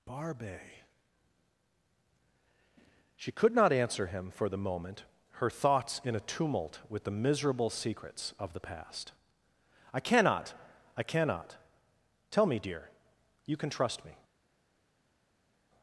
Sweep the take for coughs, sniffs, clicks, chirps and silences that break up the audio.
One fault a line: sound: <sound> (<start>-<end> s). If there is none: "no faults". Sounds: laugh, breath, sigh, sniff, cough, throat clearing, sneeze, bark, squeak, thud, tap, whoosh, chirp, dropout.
no faults